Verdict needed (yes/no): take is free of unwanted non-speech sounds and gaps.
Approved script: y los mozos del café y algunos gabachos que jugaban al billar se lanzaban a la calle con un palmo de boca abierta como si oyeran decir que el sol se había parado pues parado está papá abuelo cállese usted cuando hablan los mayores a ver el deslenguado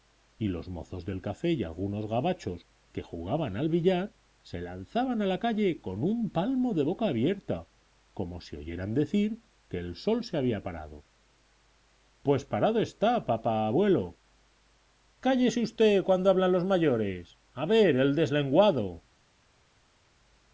yes